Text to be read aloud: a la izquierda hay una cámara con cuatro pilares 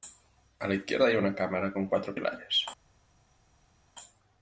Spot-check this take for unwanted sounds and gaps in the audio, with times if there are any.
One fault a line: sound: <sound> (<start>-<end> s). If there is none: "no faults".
no faults